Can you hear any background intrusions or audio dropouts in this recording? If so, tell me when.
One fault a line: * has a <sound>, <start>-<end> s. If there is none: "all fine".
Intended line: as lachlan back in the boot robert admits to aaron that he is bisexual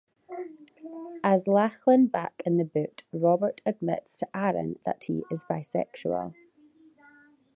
all fine